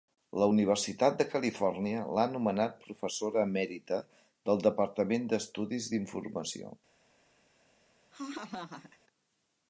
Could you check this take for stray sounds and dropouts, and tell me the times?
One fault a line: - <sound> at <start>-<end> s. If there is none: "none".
- laugh at 8.1-9.0 s